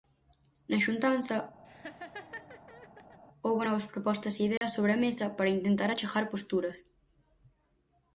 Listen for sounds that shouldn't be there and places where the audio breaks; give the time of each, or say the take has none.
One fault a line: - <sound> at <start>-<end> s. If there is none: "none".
- laugh at 1.6-3.2 s
- dropout at 4.6-4.6 s